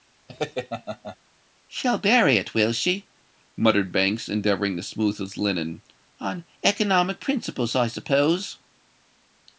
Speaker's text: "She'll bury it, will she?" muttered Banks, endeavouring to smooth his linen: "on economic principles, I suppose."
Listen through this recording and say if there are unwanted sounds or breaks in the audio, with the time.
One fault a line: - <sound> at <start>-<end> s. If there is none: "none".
- laugh at 0.3-1.2 s